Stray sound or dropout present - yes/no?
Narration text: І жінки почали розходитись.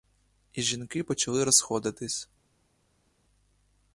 no